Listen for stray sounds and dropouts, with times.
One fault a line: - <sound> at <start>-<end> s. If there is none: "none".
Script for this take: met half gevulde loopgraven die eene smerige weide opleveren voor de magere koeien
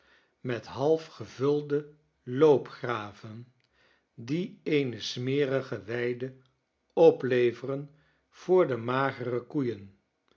none